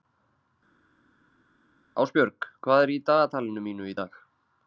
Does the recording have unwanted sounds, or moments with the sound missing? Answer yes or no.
no